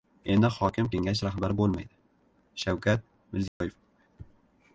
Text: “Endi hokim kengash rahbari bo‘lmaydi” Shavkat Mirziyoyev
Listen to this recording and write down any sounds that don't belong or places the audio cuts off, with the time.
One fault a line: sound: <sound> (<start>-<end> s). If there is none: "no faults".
sound: dropout (3.5-3.6 s)